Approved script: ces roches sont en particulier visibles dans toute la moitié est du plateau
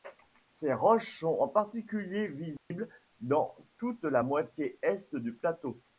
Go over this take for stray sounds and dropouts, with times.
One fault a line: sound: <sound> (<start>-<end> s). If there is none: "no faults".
sound: dropout (2.6-2.7 s)